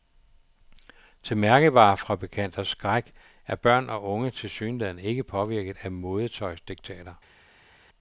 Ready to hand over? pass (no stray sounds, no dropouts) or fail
pass